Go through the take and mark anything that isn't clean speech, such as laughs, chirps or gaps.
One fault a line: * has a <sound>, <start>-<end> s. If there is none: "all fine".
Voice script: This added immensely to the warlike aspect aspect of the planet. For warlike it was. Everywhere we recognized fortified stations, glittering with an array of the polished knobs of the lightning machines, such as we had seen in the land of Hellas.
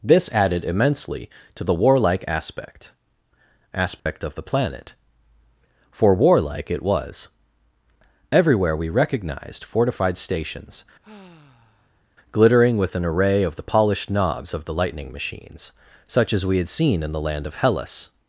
* has a dropout, 4.0-4.1 s
* has a sigh, 11.0-12.0 s